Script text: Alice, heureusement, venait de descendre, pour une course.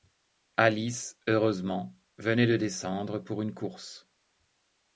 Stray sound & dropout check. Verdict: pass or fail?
pass